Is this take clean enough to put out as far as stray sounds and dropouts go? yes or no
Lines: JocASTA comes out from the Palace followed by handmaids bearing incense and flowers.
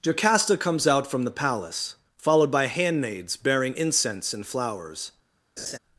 no